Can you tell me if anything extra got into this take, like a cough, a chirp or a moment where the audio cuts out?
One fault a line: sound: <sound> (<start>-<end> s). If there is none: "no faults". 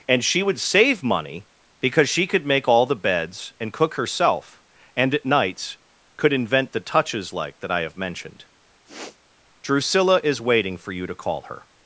sound: sniff (8.9-9.2 s)